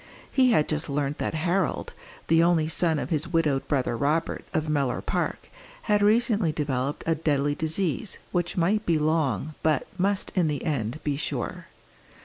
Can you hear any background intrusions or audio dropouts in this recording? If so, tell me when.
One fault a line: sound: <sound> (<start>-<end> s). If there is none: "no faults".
no faults